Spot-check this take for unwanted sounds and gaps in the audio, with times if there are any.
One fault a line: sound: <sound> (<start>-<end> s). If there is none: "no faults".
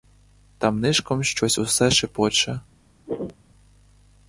sound: throat clearing (3.1-3.4 s)